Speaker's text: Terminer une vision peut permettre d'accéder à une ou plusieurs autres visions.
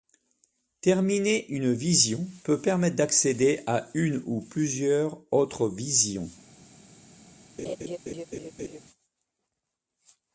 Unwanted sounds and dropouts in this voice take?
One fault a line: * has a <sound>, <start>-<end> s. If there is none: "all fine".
* has a laugh, 7.6-8.8 s